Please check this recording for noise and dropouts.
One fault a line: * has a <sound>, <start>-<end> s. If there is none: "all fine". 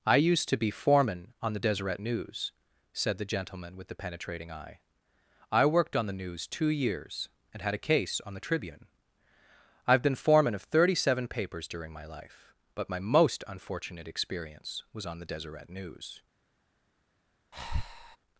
* has a breath, 17.5-18.2 s